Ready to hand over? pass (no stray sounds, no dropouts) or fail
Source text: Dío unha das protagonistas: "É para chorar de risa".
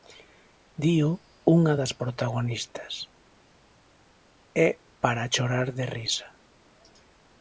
pass